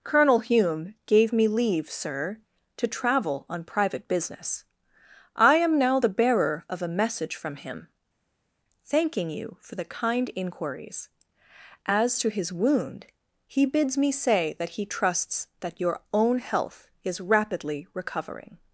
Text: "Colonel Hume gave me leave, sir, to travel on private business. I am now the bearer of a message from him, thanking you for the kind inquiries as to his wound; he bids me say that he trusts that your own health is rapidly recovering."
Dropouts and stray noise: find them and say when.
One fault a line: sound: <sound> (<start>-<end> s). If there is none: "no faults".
no faults